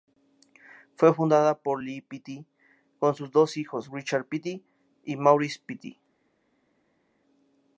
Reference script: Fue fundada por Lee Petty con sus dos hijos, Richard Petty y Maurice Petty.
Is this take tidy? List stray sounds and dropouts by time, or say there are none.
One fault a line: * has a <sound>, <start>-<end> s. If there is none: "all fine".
all fine